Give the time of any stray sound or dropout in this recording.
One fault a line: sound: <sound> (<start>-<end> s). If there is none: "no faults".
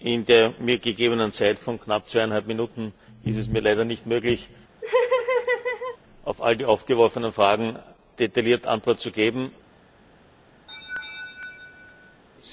sound: laugh (4.8-6.0 s)
sound: laugh (10.7-12.2 s)